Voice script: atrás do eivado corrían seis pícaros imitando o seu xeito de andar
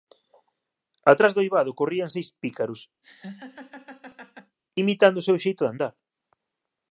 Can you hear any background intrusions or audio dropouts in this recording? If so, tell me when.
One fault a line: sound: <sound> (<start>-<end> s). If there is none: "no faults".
sound: laugh (3.0-4.6 s)